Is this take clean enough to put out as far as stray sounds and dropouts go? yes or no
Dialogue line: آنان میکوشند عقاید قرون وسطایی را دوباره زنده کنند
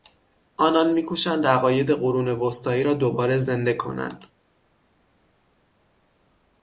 yes